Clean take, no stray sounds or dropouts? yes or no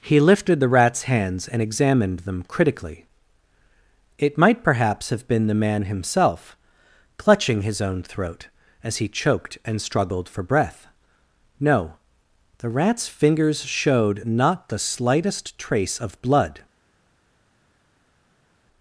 yes